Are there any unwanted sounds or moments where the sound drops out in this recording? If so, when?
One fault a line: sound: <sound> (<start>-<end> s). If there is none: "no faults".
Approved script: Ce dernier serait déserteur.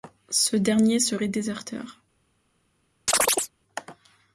sound: chirp (3.1-3.5 s)